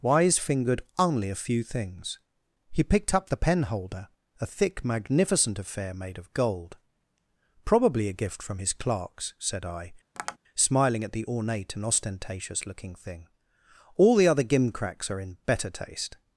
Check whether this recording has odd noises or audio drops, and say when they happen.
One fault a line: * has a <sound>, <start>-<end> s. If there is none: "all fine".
* has a tap, 10.2-10.4 s